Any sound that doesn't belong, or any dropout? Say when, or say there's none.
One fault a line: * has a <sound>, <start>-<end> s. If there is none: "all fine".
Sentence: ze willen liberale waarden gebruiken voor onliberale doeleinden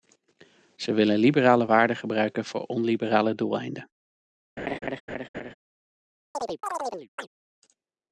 * has a laugh, 4.6-5.5 s
* has a chirp, 6.3-7.3 s